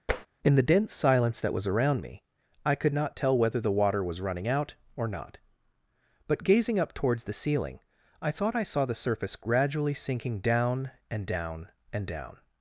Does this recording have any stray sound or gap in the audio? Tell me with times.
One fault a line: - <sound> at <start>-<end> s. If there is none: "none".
- tap at 0.1-0.3 s